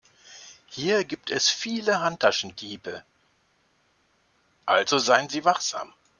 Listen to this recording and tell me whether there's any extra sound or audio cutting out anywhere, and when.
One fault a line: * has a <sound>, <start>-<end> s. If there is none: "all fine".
all fine